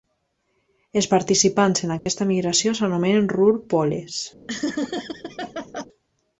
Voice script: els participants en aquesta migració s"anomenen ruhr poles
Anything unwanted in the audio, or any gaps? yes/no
yes